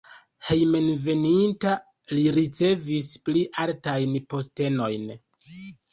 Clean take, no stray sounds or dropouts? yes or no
yes